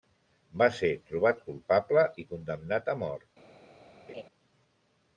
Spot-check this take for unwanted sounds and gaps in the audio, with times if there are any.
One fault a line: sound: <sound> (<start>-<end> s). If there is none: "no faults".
sound: laugh (4.1-4.2 s)